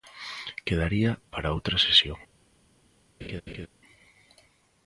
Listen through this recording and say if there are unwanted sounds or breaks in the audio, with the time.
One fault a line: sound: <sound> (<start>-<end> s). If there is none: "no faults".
sound: laugh (3.2-3.7 s)